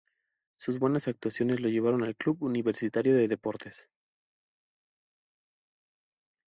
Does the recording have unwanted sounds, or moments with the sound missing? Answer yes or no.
no